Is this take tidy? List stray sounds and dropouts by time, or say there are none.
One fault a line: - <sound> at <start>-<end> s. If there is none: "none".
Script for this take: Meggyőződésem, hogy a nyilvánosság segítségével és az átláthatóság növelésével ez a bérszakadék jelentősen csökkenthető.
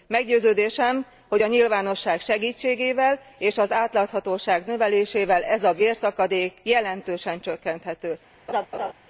- laugh at 8.5-8.9 s